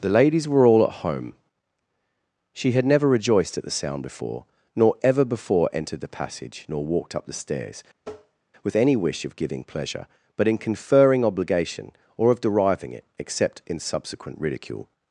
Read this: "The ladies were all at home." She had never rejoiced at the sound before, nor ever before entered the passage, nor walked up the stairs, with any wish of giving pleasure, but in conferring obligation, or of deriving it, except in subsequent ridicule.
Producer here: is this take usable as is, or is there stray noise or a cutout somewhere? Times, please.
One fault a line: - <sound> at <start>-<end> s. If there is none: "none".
- tap at 8.0-8.4 s